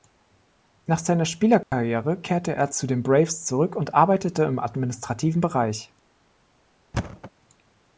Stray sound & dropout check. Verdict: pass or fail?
fail